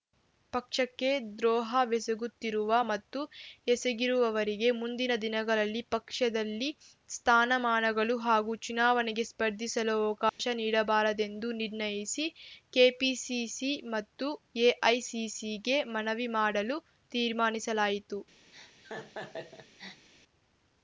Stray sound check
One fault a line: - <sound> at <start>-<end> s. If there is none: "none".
- dropout at 10.3-10.4 s
- laugh at 18.5-20.1 s